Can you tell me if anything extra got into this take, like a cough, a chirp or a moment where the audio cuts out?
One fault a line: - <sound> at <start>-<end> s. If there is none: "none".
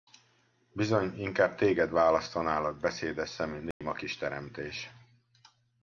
- dropout at 3.7-3.8 s